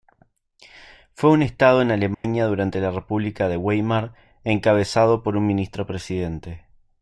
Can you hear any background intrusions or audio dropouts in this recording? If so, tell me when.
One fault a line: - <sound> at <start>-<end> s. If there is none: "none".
- dropout at 2.1-2.2 s